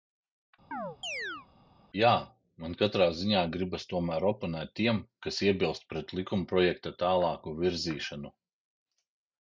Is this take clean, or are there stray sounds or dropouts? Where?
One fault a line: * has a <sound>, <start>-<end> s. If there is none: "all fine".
* has a chirp, 0.7-1.5 s